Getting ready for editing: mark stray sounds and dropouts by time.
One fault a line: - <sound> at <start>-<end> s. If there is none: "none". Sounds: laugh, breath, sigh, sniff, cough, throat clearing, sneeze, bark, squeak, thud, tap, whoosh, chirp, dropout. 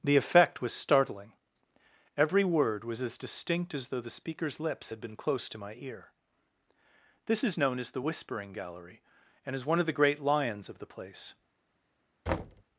- thud at 12.3-12.6 s